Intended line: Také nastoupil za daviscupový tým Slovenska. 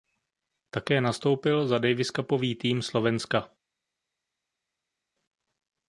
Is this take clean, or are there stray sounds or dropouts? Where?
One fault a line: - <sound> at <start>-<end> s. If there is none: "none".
none